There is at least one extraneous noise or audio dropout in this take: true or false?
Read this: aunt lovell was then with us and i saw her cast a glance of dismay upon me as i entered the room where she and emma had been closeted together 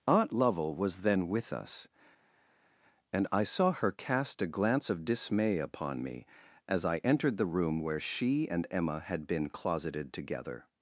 false